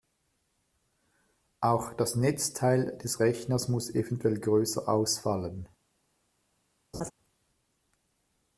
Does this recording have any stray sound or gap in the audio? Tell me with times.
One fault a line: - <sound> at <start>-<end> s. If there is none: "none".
- laugh at 6.9-7.1 s